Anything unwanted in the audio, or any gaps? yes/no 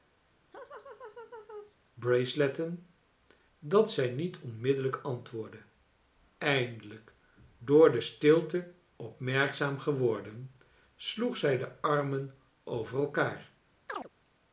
yes